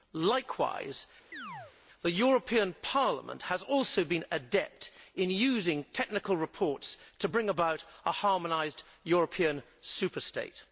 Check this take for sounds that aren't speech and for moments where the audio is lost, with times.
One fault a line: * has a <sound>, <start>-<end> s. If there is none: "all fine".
* has a chirp, 1.3-1.8 s